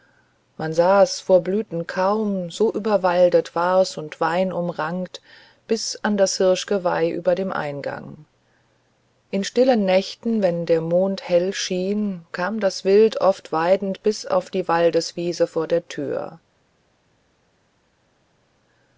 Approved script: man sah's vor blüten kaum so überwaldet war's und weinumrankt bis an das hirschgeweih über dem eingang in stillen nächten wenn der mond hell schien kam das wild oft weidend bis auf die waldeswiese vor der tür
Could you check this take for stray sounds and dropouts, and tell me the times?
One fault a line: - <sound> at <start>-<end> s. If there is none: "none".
none